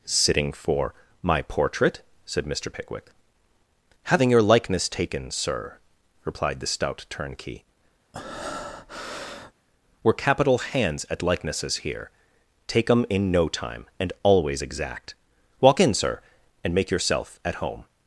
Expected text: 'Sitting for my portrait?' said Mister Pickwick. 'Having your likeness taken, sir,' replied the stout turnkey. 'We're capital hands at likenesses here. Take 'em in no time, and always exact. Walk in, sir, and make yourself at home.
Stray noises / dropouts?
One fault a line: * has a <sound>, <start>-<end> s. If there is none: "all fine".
* has a breath, 8.1-9.5 s